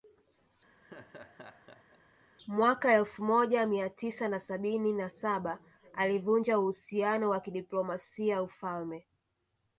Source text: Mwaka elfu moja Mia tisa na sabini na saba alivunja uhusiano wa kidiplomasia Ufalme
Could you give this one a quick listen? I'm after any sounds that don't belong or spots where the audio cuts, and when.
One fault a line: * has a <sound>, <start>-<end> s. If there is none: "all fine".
* has a laugh, 0.8-2.0 s